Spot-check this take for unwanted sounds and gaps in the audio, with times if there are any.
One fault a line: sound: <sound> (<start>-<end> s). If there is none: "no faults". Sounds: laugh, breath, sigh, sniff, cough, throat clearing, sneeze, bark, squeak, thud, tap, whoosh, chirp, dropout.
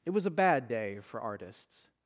no faults